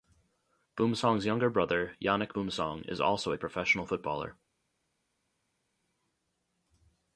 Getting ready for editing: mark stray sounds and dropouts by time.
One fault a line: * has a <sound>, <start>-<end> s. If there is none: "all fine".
all fine